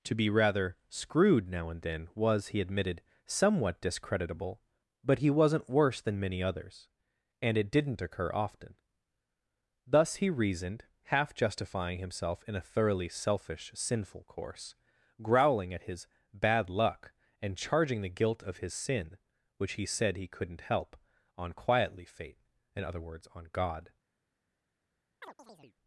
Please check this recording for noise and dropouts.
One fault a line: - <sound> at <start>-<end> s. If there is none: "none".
- chirp at 25.2-25.8 s